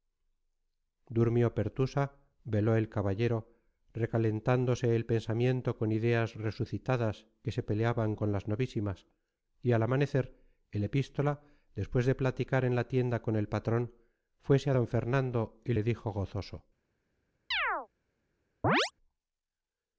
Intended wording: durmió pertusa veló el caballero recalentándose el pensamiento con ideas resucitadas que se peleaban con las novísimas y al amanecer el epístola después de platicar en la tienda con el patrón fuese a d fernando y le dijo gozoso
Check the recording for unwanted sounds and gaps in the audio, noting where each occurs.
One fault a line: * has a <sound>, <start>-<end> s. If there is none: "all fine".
* has a chirp, 17.5-17.9 s
* has a chirp, 18.6-18.9 s